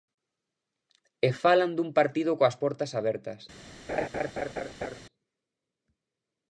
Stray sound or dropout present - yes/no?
yes